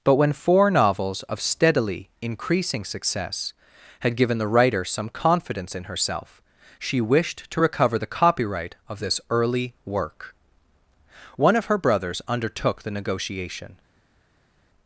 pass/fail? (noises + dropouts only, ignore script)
pass